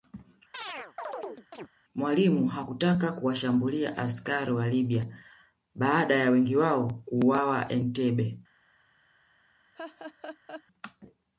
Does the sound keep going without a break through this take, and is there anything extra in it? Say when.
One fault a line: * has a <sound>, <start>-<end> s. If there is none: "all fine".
* has a chirp, 0.5-1.7 s
* has a laugh, 9.7-10.6 s